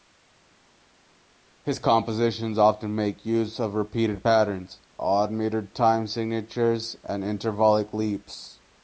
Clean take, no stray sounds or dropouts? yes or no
yes